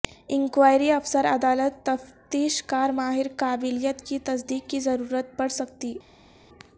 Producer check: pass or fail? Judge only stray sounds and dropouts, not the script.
pass